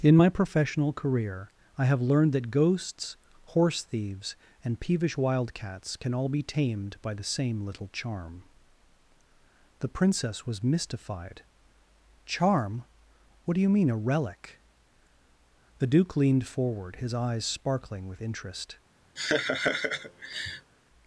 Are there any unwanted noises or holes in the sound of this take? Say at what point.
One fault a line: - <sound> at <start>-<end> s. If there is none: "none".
- laugh at 19.2-20.7 s